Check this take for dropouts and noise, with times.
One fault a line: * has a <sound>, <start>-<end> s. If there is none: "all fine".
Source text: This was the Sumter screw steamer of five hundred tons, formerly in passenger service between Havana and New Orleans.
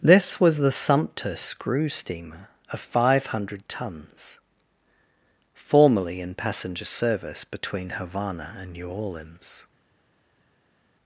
all fine